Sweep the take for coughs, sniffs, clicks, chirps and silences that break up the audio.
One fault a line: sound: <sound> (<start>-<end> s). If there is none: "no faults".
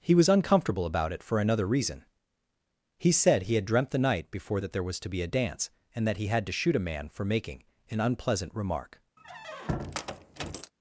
sound: squeak (9.2-10.7 s)